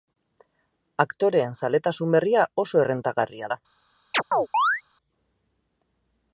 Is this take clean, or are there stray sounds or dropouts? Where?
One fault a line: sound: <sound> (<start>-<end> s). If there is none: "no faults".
sound: chirp (4.1-4.8 s)